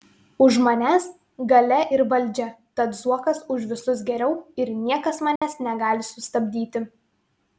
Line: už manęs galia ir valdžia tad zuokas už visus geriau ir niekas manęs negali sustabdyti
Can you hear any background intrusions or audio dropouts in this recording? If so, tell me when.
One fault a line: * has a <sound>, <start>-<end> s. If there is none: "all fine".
* has a dropout, 5.4-5.4 s